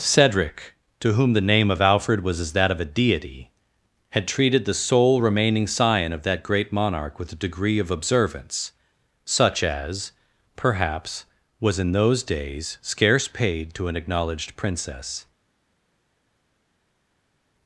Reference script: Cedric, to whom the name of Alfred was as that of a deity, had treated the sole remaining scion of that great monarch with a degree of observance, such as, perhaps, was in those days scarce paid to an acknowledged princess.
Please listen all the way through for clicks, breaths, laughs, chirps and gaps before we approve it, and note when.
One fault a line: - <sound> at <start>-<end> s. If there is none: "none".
none